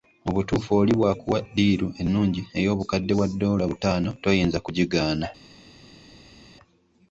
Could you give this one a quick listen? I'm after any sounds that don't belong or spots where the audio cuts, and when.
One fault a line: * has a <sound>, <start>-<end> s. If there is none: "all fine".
all fine